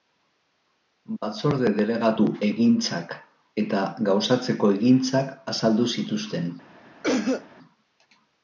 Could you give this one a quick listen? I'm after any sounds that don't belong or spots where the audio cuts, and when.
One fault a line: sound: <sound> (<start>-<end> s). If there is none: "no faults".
sound: cough (7.0-7.5 s)